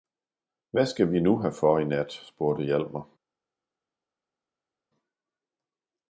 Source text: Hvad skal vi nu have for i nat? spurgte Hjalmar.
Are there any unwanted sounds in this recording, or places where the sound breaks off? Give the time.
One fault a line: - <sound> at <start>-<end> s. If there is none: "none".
none